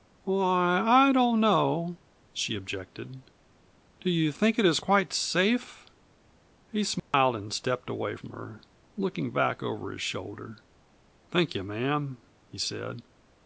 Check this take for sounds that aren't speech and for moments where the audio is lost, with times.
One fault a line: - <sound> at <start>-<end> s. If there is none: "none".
- dropout at 7.0-7.1 s